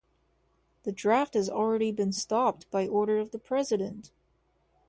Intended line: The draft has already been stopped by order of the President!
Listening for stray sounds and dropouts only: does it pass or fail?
pass